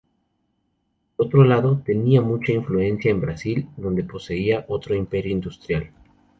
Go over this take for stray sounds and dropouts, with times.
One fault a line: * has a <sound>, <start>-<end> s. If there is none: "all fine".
all fine